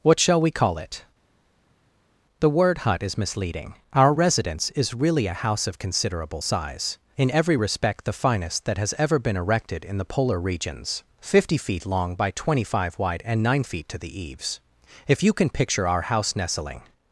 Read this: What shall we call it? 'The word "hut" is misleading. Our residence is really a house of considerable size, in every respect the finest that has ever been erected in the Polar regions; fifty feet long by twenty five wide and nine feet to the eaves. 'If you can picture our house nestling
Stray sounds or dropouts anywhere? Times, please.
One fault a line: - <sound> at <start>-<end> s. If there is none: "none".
none